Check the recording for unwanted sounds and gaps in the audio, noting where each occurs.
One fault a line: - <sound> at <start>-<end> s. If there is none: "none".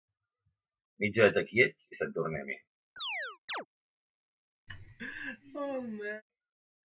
- chirp at 3.0-3.7 s
- laugh at 4.7-6.2 s